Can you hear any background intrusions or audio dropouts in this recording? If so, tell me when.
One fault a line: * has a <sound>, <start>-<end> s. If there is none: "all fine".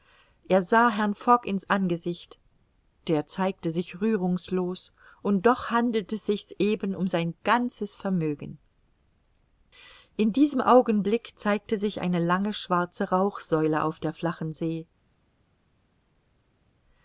all fine